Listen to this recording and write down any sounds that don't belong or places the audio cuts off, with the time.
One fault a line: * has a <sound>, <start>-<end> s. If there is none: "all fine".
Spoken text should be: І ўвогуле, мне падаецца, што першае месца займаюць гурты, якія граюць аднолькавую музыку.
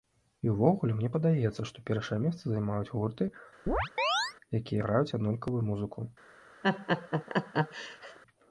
* has a chirp, 3.7-4.3 s
* has a laugh, 6.6-8.2 s